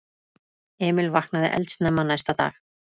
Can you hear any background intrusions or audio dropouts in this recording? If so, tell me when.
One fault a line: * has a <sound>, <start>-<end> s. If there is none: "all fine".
all fine